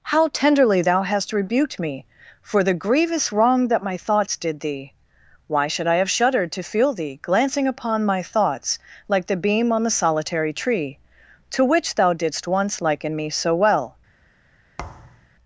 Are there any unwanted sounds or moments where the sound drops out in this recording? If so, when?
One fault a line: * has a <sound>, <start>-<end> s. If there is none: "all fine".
* has a thud, 14.8-15.3 s